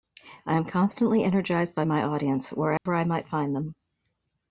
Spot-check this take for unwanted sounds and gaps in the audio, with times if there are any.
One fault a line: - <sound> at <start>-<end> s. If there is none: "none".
- dropout at 2.8-2.9 s